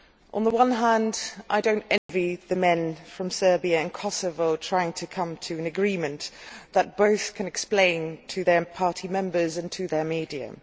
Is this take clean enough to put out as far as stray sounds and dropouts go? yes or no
no